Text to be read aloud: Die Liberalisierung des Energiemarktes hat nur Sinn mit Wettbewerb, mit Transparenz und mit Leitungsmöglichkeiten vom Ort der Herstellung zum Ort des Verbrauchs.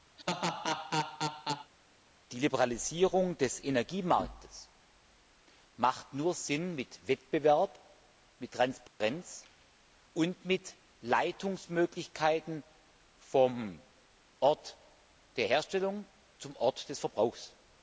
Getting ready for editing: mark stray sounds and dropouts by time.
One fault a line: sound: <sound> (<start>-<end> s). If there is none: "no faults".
sound: laugh (0.2-1.7 s)
sound: dropout (8.9-9.0 s)